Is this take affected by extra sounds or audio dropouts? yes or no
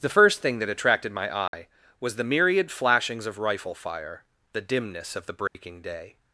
yes